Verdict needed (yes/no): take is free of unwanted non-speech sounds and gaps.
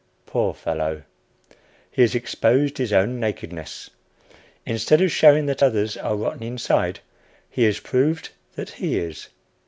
yes